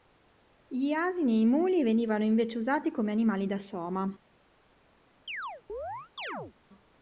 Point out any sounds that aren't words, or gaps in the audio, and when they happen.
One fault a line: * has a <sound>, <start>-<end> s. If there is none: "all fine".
* has a chirp, 5.3-6.5 s